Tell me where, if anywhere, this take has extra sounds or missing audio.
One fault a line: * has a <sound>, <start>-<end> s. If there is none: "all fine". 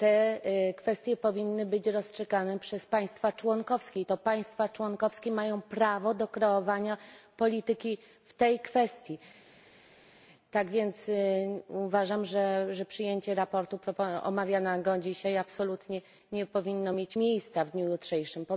all fine